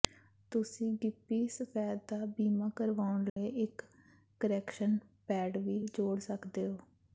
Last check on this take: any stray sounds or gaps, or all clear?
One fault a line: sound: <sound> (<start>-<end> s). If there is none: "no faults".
sound: dropout (3.3-3.4 s)